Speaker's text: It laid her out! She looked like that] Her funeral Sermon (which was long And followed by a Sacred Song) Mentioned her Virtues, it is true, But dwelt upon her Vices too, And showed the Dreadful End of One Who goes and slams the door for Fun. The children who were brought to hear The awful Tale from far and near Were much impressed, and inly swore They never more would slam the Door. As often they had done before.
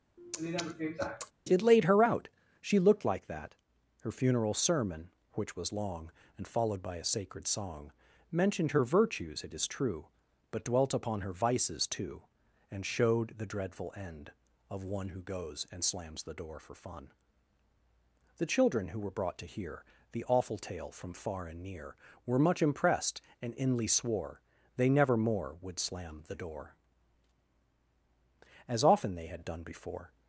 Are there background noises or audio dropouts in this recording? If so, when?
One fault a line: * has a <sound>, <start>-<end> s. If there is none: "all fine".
* has a sniff, 0.2-1.3 s